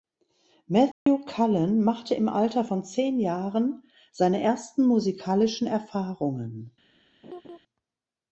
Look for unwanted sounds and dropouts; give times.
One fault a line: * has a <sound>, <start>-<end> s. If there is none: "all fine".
* has a dropout, 0.9-1.1 s
* has a laugh, 7.2-7.6 s